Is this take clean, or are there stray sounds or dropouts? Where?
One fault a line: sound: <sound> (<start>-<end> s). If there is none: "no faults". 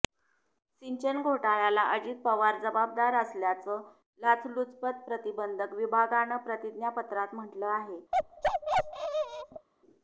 sound: bark (8.1-9.7 s)